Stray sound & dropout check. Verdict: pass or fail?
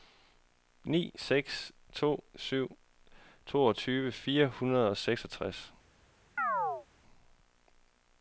fail